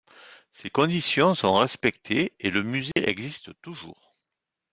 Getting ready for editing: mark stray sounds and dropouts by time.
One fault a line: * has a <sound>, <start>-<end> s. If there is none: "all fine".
* has a dropout, 2.9-3.0 s